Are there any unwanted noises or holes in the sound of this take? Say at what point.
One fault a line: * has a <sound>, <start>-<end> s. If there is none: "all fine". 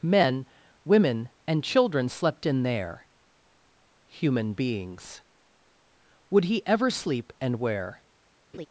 * has a laugh, 8.5-8.7 s